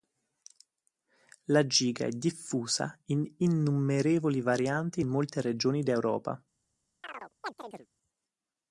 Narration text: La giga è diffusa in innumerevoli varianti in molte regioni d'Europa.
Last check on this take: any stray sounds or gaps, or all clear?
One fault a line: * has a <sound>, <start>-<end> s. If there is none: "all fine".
* has a chirp, 7.0-7.9 s